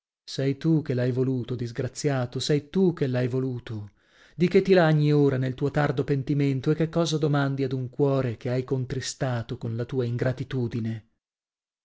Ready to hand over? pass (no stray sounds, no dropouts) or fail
pass